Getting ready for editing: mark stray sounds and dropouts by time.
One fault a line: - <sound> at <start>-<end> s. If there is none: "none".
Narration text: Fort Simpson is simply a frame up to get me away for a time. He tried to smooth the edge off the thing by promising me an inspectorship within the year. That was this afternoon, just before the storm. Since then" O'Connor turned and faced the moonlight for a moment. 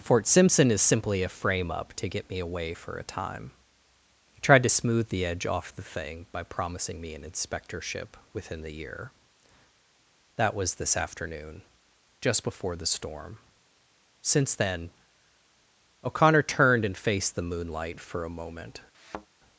- thud at 18.9-19.3 s